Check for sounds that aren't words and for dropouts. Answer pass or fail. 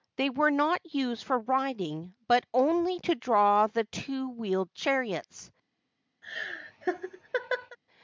fail